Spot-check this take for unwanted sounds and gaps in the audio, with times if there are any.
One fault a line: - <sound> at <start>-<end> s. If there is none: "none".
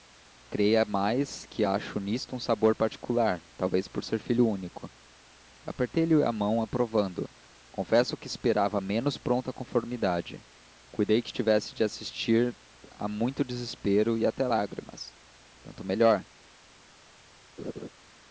- laugh at 17.6-17.9 s